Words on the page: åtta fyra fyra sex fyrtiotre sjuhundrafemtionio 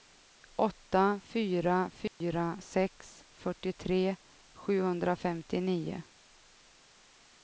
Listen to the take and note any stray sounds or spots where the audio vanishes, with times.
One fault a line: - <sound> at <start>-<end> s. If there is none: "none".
- dropout at 2.1-2.2 s